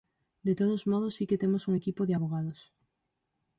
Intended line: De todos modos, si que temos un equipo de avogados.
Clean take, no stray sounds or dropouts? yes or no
yes